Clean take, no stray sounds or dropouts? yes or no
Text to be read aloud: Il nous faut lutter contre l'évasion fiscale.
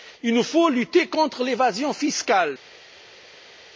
yes